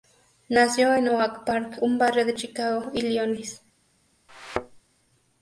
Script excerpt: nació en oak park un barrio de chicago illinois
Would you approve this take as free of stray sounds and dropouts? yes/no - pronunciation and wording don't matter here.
no